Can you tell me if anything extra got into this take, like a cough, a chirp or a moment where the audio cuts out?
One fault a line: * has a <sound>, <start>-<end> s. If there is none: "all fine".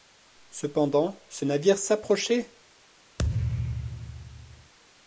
* has a thud, 3.2-4.7 s